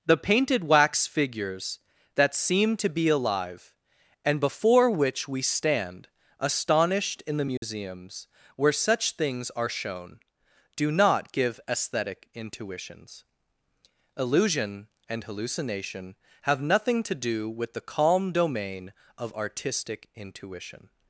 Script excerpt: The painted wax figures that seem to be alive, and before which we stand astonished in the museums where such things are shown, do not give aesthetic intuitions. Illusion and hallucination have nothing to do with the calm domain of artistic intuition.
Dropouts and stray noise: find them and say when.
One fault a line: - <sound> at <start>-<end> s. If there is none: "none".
- dropout at 7.6-7.6 s